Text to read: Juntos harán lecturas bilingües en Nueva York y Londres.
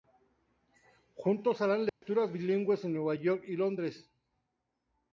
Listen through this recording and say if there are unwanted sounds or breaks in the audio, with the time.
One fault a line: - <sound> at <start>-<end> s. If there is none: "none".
- dropout at 1.9-2.0 s